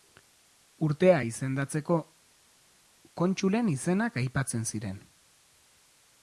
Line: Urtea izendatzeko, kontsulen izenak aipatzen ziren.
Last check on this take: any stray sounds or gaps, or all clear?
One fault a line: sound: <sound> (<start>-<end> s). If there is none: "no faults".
no faults